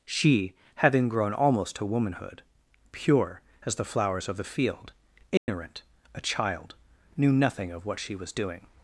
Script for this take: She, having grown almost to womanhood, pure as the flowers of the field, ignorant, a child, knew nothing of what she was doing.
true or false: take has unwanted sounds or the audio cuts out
true